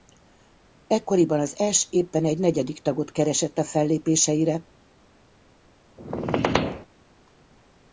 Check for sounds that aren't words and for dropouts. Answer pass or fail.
fail